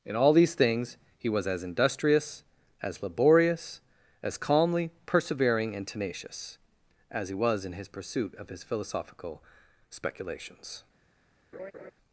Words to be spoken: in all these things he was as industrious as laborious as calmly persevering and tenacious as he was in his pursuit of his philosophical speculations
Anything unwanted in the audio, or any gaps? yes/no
yes